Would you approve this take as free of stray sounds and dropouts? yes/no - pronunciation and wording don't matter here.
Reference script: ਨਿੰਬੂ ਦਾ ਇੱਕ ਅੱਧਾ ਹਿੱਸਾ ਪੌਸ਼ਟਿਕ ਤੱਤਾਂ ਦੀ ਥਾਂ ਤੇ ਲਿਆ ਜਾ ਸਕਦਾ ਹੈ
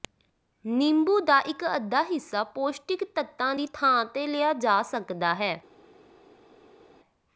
yes